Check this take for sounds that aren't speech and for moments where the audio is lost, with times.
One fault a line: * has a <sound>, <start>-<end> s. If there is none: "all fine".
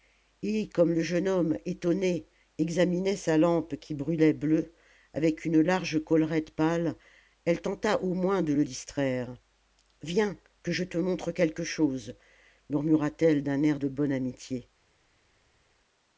all fine